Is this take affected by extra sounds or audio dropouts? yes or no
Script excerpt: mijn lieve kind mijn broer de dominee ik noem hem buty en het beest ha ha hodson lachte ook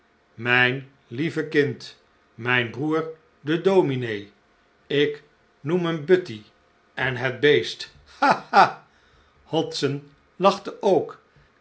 no